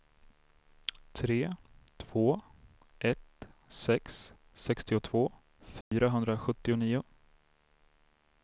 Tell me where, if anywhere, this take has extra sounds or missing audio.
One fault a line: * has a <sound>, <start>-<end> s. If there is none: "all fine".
* has a dropout, 5.8-5.9 s